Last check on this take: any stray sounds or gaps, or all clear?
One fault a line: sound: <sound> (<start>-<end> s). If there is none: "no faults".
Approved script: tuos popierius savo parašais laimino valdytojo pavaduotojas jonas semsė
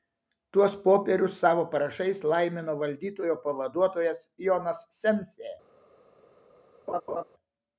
sound: laugh (6.9-7.2 s)